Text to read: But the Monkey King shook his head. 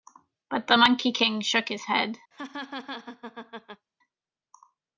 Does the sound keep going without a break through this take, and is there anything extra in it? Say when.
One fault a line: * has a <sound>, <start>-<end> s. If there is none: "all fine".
* has a laugh, 2.3-3.9 s